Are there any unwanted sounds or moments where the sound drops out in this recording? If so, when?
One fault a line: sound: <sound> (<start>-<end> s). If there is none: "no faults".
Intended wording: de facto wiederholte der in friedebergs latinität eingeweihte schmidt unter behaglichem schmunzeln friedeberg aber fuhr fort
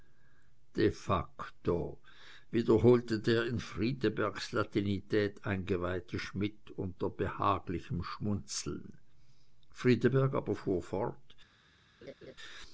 sound: laugh (12.0-12.3 s)